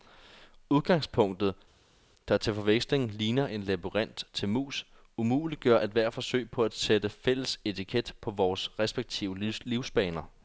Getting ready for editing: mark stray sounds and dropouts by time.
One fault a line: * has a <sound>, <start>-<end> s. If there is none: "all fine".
all fine